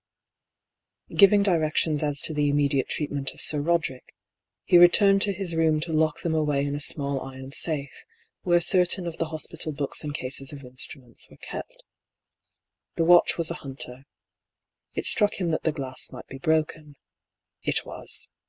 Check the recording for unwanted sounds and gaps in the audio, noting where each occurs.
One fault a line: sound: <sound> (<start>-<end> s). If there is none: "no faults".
no faults